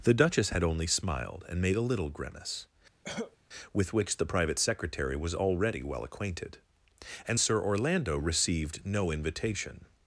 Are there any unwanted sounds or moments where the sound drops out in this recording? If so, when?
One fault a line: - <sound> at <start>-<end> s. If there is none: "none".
- cough at 3.0-3.4 s